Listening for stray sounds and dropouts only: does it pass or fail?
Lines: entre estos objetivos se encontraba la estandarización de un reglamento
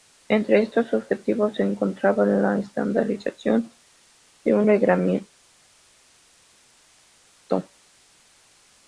pass